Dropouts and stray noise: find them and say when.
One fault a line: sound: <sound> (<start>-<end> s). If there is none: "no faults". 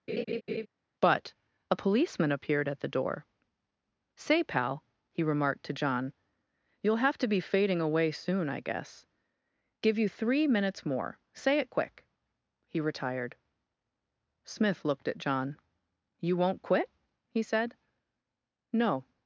sound: laugh (0.1-0.7 s)